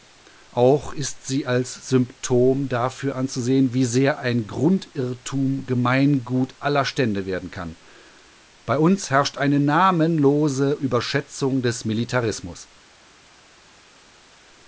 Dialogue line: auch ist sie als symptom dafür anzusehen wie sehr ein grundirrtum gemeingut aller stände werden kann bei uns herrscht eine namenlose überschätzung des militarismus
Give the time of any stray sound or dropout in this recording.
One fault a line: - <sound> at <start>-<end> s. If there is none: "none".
none